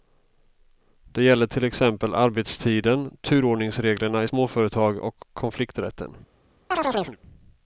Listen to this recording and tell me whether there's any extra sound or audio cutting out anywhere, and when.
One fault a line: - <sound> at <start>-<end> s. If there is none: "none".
- chirp at 6.7-7.2 s